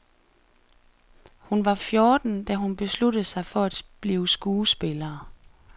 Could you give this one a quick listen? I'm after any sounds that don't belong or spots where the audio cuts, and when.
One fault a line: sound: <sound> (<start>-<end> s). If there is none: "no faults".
no faults